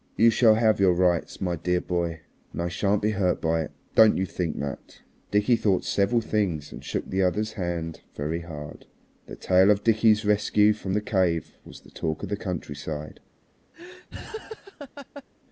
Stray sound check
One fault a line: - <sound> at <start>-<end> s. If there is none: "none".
- laugh at 13.7-15.2 s